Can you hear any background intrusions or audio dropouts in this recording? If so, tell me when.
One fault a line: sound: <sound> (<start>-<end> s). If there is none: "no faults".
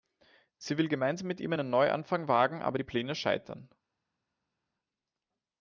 no faults